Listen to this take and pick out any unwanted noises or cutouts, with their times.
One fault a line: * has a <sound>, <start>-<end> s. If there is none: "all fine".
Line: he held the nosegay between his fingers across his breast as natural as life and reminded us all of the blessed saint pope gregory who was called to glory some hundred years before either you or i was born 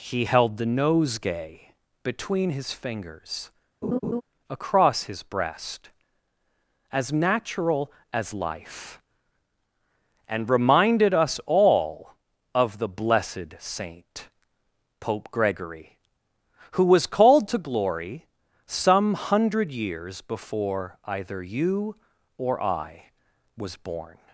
* has a laugh, 3.8-4.2 s